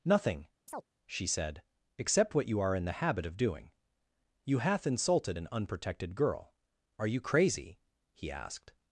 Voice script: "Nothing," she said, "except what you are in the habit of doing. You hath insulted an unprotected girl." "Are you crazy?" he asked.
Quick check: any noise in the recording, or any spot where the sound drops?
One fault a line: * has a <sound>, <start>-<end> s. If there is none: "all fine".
* has a chirp, 0.7-0.9 s